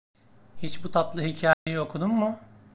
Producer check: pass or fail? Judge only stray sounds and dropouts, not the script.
fail